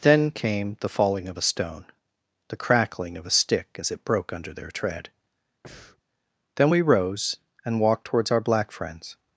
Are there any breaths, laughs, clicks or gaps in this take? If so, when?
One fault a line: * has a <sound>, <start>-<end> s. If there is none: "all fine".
* has a breath, 5.6-6.0 s